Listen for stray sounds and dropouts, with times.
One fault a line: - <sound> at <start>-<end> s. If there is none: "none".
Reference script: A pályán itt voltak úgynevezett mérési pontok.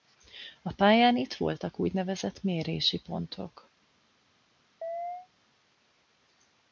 - chirp at 4.8-5.3 s